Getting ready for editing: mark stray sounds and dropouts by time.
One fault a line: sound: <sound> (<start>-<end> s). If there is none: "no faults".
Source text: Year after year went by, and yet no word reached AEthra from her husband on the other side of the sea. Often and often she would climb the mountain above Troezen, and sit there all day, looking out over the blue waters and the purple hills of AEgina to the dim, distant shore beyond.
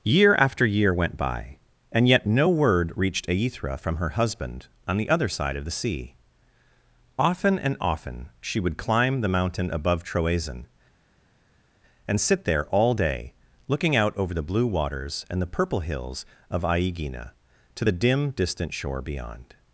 no faults